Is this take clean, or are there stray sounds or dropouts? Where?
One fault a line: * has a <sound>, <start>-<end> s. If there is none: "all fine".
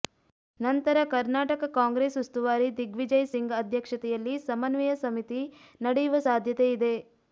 all fine